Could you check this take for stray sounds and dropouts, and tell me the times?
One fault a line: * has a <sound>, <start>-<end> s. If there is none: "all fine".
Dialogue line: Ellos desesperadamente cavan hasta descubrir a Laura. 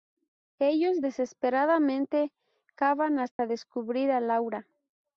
* has a dropout, 3.3-3.4 s